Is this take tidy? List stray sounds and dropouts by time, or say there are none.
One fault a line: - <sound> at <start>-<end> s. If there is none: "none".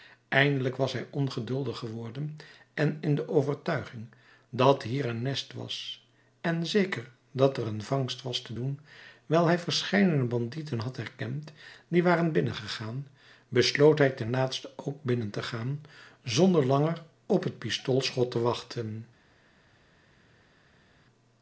none